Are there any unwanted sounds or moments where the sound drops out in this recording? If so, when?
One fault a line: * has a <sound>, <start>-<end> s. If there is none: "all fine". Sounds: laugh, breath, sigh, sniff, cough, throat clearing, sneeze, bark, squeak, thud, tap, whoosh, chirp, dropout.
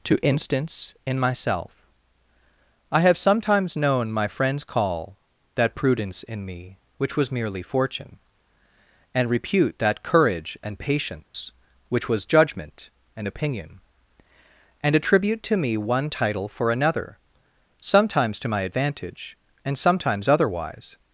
* has a dropout, 11.2-11.3 s